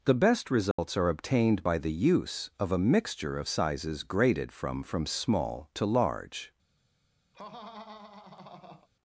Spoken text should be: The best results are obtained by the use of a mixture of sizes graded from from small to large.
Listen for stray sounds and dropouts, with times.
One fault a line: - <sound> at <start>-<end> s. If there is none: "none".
- dropout at 0.7-0.8 s
- laugh at 7.3-8.9 s